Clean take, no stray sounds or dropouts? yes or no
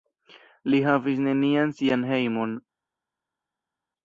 yes